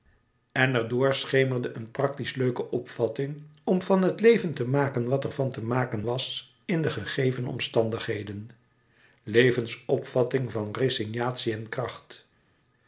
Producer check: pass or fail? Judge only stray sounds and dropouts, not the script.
pass